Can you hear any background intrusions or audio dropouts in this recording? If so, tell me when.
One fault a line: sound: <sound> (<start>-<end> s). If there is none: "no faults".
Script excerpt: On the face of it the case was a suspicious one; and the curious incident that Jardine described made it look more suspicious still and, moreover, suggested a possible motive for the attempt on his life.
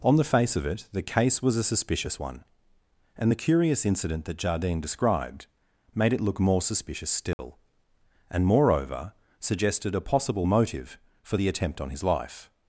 sound: dropout (7.3-7.4 s)